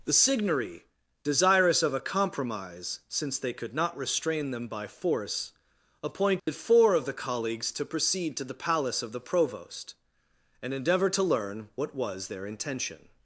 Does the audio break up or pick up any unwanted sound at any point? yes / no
yes